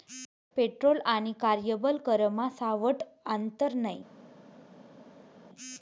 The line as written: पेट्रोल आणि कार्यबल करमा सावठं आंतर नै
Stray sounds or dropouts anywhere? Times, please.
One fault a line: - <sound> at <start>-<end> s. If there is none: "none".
none